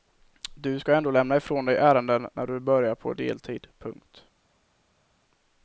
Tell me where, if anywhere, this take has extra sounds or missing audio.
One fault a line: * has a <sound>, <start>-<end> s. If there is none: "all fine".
all fine